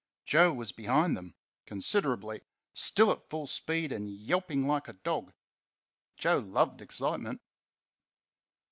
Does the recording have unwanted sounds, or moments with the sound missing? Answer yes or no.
no